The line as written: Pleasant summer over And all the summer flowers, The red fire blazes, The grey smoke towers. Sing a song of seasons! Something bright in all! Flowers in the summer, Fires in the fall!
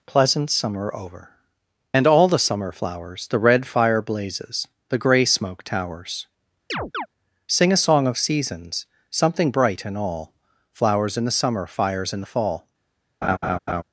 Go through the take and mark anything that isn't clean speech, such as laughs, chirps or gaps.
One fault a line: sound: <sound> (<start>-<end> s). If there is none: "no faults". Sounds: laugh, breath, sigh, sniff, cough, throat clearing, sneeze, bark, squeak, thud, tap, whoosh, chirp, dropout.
sound: chirp (6.7-7.1 s)
sound: laugh (13.2-13.8 s)